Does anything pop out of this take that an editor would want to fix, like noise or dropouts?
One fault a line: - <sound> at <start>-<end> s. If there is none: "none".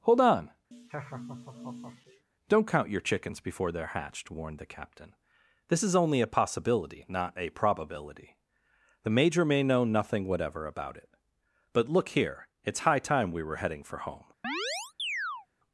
- laugh at 0.7-2.2 s
- chirp at 14.4-15.5 s